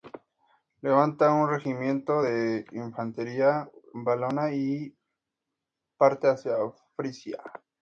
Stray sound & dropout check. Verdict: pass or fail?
pass